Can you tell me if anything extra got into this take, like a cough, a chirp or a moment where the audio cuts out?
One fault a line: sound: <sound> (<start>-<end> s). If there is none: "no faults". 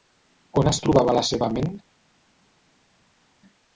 no faults